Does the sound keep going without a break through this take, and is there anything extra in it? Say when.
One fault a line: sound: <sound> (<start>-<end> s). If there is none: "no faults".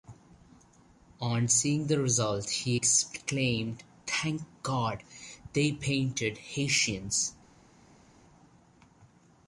no faults